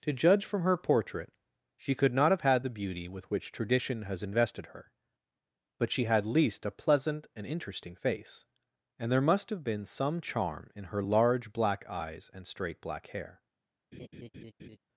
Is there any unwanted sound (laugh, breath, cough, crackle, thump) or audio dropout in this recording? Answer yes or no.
yes